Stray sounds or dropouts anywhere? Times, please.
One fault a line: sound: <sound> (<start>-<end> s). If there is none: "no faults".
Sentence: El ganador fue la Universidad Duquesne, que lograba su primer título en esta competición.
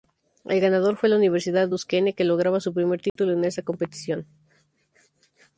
sound: dropout (3.1-3.2 s)